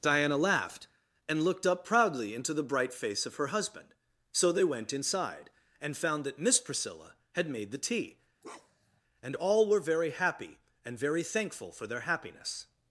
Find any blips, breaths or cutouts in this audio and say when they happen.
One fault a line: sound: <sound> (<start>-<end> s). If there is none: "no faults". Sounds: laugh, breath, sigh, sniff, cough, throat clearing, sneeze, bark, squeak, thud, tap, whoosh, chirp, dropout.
sound: bark (8.4-9.0 s)